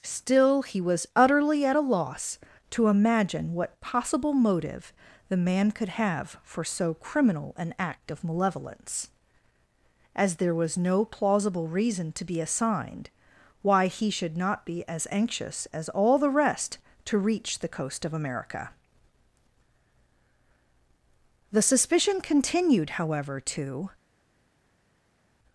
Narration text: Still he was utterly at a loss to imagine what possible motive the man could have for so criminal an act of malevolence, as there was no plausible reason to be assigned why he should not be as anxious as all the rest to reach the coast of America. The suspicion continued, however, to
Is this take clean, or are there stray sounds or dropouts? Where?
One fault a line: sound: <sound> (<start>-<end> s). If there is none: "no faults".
no faults